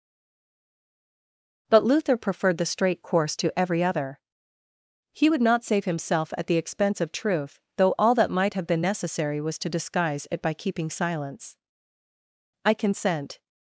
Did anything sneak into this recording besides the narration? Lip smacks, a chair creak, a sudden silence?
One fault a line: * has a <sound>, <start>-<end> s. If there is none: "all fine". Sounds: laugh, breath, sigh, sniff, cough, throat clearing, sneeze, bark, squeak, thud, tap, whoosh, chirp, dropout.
all fine